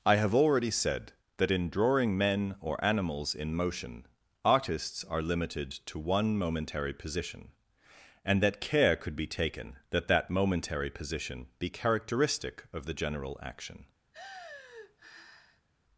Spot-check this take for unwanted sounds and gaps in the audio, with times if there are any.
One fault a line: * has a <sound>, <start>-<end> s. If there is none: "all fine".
* has a sigh, 14.1-15.7 s